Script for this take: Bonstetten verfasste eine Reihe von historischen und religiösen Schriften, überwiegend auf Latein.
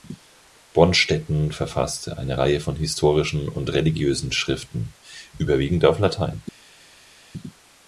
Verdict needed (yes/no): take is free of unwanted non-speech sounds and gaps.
yes